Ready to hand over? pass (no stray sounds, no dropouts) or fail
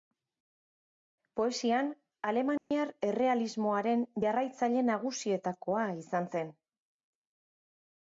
fail